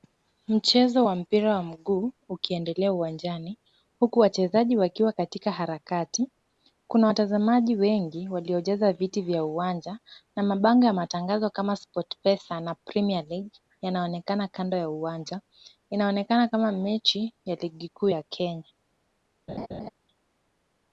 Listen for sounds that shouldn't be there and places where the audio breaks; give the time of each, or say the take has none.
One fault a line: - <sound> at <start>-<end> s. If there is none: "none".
- laugh at 19.5-19.9 s